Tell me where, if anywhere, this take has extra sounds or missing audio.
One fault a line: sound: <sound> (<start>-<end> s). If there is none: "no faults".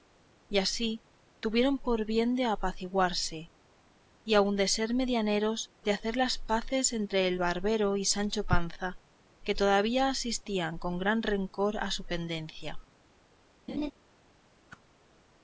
sound: laugh (13.7-13.9 s)
sound: whoosh (14.7-14.8 s)